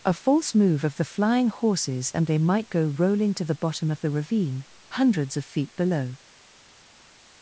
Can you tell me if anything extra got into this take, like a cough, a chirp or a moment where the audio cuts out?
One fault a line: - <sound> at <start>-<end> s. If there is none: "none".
none